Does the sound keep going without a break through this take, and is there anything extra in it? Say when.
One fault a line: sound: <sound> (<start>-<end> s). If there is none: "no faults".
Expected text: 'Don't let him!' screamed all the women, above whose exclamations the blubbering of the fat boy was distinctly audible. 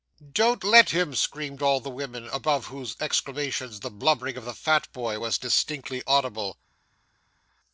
no faults